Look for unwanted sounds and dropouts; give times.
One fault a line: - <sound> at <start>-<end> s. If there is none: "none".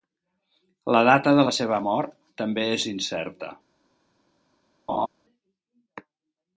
- laugh at 4.9-5.1 s